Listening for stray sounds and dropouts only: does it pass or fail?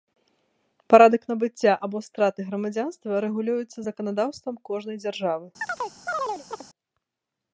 fail